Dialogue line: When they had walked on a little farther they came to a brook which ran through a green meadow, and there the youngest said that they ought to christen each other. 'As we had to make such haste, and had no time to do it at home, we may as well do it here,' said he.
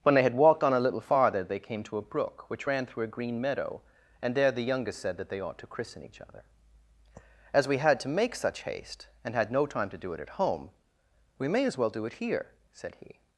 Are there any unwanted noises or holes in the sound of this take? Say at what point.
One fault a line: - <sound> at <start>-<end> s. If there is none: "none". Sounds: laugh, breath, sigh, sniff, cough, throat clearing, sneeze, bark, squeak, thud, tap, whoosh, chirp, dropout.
none